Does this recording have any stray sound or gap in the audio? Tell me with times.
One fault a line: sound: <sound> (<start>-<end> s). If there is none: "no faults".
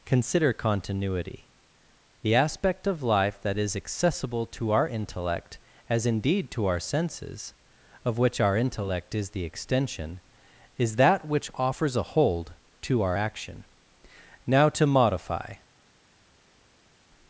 no faults